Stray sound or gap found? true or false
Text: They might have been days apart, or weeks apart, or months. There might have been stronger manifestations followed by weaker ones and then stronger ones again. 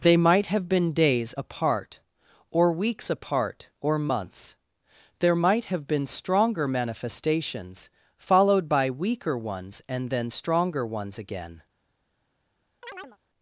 true